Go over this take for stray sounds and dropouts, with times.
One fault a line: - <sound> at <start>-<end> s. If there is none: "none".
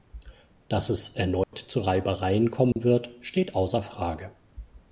- dropout at 1.4-1.5 s
- dropout at 2.7-2.8 s